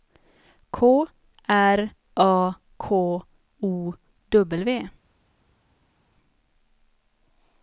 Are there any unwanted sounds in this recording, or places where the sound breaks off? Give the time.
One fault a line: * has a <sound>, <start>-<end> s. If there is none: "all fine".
all fine